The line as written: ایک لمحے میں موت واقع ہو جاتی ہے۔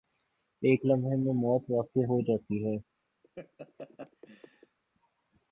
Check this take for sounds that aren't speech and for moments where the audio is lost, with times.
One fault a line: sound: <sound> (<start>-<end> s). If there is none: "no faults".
sound: laugh (3.2-4.8 s)